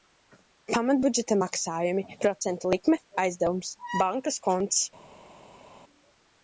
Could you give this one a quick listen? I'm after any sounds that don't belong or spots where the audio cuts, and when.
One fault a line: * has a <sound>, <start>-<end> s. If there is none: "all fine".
all fine